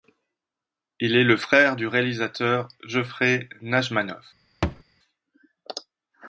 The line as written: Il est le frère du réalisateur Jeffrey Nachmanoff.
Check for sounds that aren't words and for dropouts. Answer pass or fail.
fail